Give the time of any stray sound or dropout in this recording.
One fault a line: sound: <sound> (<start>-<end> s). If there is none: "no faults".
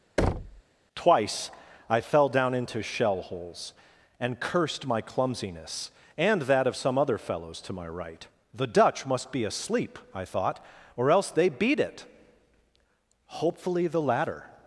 sound: thud (0.2-0.6 s)